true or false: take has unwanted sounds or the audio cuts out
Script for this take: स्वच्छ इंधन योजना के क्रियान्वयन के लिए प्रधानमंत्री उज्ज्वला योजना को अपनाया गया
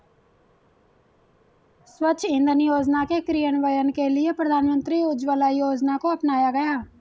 false